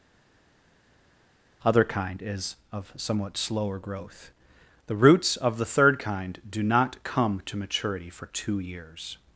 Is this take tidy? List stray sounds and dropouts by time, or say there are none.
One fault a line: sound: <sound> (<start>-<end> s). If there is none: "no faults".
no faults